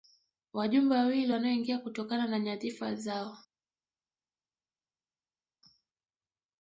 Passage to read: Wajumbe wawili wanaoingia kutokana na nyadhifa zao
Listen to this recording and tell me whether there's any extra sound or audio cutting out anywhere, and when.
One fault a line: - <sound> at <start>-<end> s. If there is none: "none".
none